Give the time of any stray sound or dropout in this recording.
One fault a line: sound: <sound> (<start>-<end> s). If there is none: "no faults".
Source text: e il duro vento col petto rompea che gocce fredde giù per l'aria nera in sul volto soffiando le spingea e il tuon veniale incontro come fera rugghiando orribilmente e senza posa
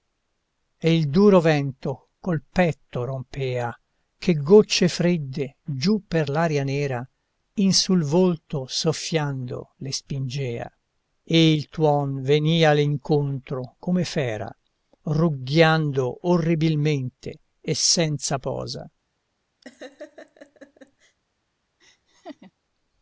sound: laugh (19.6-21.2 s)
sound: laugh (21.8-22.5 s)